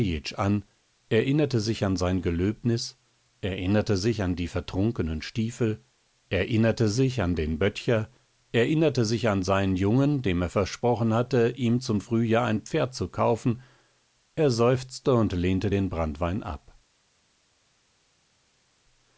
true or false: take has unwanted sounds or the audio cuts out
false